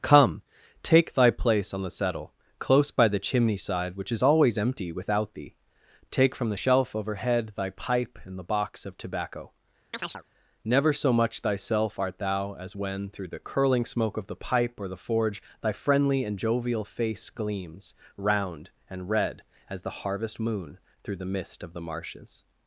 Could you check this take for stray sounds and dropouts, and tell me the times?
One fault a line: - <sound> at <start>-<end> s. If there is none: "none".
- chirp at 9.9-10.2 s